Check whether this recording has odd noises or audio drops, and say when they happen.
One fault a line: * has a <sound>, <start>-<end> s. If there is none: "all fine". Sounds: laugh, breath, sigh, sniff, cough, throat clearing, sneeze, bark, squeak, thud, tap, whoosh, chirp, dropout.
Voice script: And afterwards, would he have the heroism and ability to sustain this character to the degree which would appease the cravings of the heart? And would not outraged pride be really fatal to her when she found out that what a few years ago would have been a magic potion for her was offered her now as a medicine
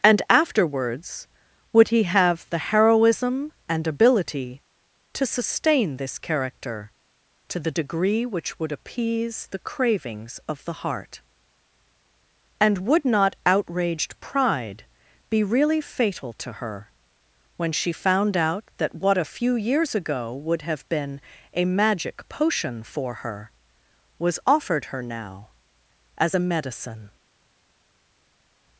all fine